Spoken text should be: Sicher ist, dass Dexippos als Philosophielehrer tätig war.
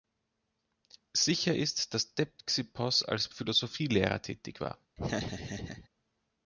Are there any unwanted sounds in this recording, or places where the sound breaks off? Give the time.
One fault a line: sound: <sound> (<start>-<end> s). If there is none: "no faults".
sound: laugh (5.0-5.9 s)